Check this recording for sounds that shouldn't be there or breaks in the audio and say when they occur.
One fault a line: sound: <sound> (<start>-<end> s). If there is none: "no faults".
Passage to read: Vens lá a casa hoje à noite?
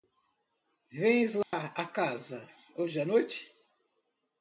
sound: dropout (1.4-1.5 s)